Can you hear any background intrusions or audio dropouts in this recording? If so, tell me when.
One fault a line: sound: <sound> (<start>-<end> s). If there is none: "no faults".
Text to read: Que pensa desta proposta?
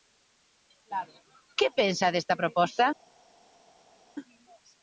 no faults